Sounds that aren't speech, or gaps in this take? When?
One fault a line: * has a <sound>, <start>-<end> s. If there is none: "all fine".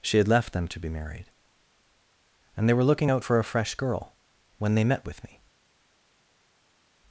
all fine